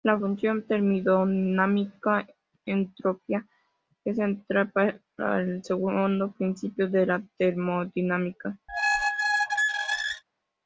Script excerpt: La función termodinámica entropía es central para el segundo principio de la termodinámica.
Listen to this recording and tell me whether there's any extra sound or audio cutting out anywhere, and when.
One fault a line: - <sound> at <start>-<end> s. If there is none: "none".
- squeak at 8.7-10.2 s